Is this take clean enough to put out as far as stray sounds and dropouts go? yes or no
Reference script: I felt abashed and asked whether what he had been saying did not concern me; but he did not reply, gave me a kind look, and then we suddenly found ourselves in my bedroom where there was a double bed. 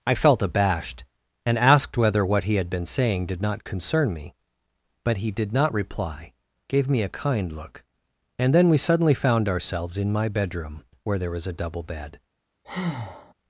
no